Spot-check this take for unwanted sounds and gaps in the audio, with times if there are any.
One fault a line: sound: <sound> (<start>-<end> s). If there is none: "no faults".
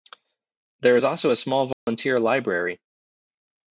sound: dropout (1.7-1.9 s)